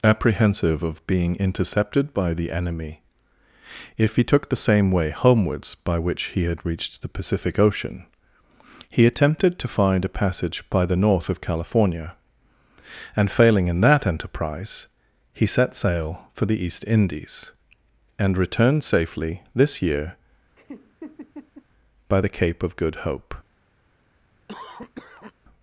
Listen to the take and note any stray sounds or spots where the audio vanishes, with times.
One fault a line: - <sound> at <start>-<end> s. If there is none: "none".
- laugh at 20.6-21.7 s
- cough at 24.5-25.3 s